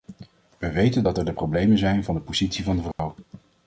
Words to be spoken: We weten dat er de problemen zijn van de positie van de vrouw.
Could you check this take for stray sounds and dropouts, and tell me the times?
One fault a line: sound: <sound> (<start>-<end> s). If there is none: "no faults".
sound: dropout (2.9-3.0 s)